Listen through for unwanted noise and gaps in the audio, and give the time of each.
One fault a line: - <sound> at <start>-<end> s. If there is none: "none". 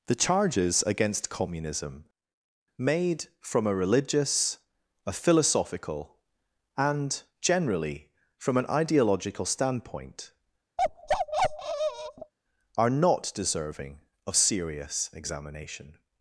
- bark at 10.8-12.3 s